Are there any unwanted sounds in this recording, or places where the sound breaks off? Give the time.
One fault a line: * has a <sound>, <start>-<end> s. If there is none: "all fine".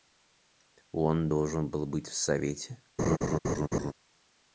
* has a laugh, 3.0-3.9 s